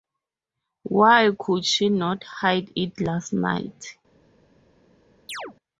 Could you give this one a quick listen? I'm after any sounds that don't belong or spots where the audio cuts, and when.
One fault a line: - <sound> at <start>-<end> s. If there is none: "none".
- chirp at 5.3-5.6 s